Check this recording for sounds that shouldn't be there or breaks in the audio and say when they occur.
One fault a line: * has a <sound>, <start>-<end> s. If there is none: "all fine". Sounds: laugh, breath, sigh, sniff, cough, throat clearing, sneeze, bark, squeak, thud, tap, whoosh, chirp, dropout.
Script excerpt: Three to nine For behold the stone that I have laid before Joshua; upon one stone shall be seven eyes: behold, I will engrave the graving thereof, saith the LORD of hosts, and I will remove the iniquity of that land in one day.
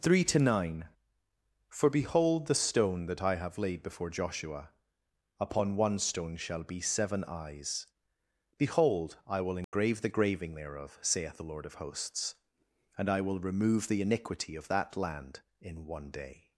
* has a dropout, 9.6-9.7 s